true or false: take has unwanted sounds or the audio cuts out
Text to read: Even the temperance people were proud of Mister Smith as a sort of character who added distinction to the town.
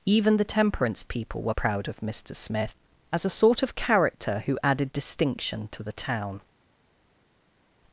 false